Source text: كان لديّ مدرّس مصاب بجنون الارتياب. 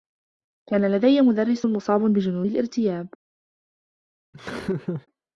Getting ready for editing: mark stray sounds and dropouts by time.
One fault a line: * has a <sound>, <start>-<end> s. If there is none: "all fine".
* has a laugh, 4.3-5.1 s